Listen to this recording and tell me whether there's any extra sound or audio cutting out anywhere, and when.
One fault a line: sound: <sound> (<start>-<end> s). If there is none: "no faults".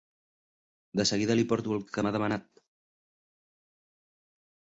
no faults